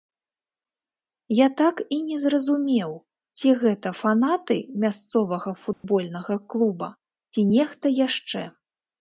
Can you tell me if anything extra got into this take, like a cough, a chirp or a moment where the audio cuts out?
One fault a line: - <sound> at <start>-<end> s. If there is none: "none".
- dropout at 5.7-5.8 s